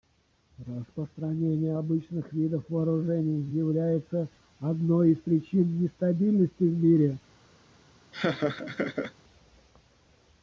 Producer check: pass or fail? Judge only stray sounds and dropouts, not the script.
fail